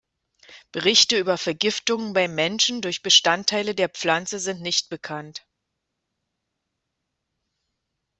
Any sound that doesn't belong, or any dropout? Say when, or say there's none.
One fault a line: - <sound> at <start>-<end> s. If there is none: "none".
none